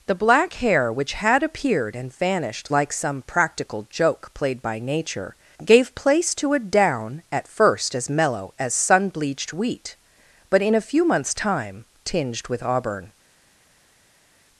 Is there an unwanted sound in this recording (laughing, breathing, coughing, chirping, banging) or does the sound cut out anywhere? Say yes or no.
no